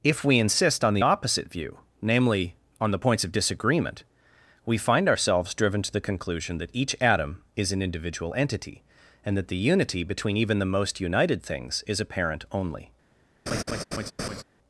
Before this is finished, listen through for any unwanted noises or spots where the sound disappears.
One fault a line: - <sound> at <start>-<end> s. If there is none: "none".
- laugh at 13.5-14.4 s